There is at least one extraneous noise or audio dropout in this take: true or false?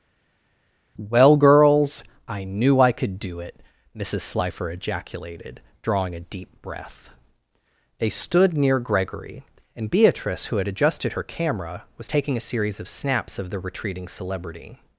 false